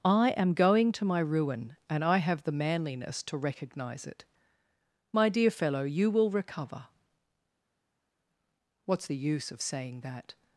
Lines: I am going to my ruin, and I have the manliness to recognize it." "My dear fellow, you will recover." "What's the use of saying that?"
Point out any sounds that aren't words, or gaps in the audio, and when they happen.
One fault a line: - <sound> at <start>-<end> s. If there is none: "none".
none